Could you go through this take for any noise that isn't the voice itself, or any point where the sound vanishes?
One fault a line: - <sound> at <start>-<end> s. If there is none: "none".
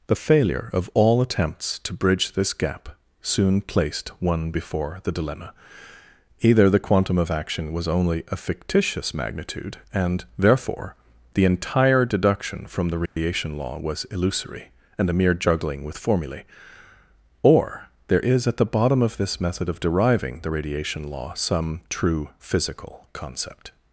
- dropout at 13.1-13.2 s